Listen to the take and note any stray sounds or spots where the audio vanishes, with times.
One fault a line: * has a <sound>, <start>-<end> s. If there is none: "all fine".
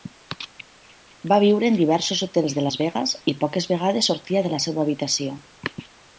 all fine